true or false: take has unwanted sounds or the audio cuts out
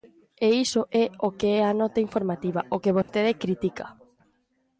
true